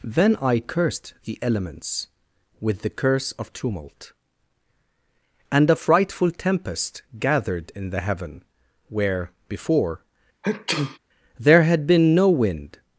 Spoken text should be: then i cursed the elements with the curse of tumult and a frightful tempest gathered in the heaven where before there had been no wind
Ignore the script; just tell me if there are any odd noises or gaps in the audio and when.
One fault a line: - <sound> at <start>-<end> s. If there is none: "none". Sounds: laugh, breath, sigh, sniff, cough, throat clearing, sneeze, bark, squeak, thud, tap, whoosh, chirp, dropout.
- sneeze at 10.4-11.0 s